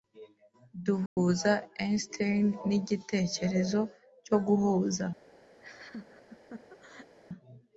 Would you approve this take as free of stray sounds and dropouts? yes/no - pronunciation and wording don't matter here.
no